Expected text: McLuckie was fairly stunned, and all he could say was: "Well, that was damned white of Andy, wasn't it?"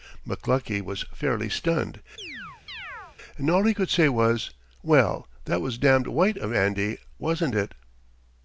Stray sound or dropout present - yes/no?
yes